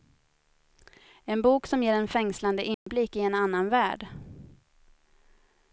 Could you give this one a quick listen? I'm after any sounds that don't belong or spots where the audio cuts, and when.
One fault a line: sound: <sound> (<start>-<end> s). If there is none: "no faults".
sound: dropout (2.7-2.9 s)